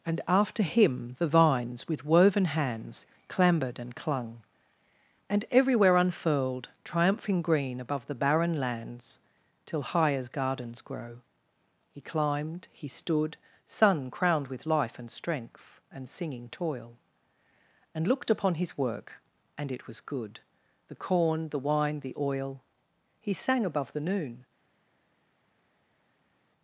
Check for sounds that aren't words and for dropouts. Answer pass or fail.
pass